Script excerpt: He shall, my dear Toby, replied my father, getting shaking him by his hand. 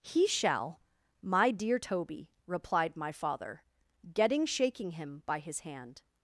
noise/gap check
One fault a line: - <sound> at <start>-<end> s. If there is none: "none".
none